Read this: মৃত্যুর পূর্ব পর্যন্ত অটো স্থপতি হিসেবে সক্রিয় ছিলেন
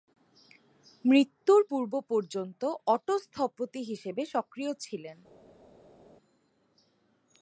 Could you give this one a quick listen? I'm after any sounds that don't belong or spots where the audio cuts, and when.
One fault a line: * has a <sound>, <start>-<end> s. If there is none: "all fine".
all fine